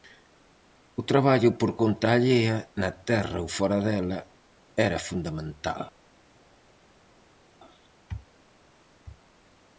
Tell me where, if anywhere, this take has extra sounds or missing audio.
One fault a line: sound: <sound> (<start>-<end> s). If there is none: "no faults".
no faults